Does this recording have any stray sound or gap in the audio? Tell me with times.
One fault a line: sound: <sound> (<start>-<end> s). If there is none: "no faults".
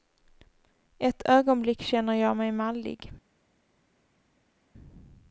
no faults